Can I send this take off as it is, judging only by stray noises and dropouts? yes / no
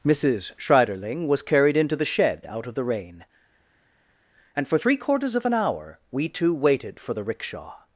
yes